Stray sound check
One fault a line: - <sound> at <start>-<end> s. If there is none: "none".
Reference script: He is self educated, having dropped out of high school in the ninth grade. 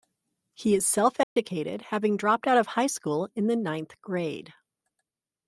- dropout at 1.2-1.4 s